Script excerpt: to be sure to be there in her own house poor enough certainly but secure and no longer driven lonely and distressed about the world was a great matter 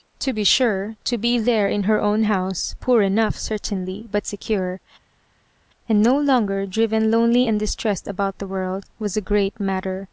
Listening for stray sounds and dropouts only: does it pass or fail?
pass